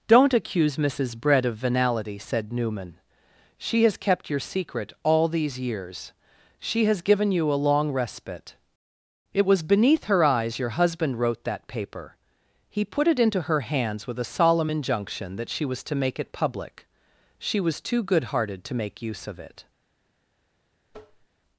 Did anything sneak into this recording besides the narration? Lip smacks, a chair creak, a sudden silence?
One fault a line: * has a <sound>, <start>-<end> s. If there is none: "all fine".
* has a tap, 20.9-21.3 s